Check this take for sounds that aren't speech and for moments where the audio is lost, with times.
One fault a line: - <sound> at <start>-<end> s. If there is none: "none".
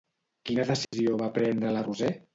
- dropout at 0.8-0.9 s